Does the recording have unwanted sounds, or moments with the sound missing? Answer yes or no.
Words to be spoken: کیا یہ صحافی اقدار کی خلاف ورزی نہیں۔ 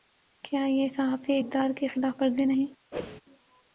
yes